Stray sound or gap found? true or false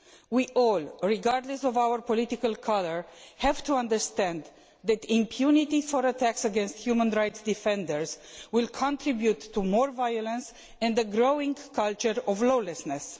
false